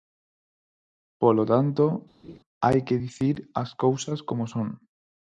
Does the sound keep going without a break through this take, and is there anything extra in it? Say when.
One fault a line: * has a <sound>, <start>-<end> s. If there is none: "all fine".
* has a laugh, 2.2-2.4 s